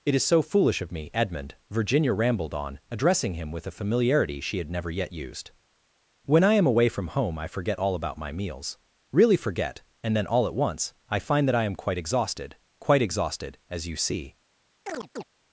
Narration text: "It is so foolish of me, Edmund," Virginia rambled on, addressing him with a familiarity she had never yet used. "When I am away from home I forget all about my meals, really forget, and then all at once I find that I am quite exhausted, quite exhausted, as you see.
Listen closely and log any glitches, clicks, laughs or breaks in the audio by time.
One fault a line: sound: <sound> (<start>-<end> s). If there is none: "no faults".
sound: chirp (14.9-15.2 s)